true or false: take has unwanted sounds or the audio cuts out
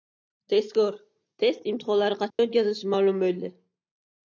true